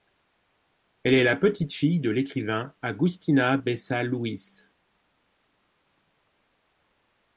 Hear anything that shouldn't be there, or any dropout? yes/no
no